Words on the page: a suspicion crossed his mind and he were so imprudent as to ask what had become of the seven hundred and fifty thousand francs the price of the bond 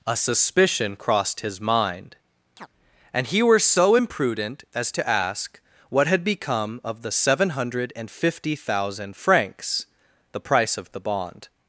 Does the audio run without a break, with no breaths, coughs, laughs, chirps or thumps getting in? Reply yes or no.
no